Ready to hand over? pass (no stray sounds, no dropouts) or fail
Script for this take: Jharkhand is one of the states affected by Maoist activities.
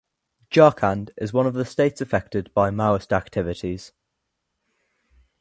pass